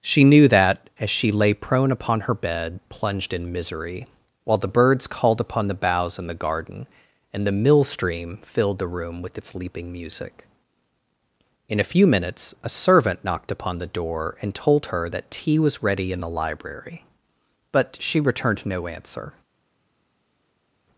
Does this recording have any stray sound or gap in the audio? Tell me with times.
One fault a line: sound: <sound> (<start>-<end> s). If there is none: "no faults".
no faults